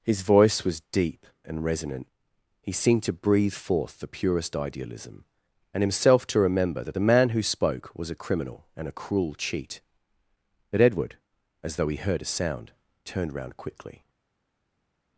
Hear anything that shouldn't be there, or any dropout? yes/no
no